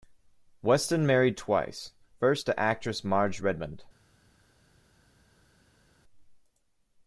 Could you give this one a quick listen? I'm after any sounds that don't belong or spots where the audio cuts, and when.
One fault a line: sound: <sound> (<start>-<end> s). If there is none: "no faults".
no faults